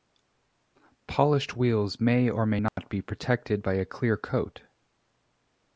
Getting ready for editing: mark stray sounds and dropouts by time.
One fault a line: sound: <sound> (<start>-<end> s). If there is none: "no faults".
sound: dropout (2.7-2.8 s)